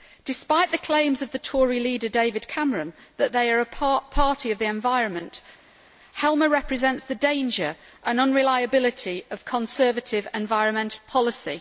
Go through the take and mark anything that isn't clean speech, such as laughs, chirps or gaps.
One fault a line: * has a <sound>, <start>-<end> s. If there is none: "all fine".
all fine